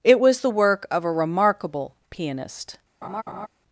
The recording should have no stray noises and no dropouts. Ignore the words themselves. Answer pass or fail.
fail